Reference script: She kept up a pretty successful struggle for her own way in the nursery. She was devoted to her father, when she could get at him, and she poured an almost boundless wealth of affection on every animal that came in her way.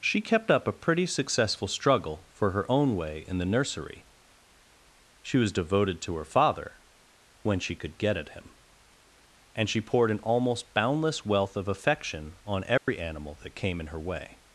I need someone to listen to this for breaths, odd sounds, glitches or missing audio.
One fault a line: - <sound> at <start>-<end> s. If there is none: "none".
- dropout at 12.8-12.9 s